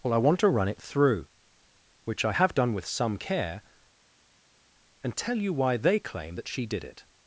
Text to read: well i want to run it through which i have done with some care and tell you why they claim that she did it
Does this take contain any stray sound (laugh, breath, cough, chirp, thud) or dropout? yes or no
no